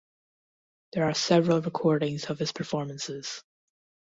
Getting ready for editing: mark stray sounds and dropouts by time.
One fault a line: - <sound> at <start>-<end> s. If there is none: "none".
none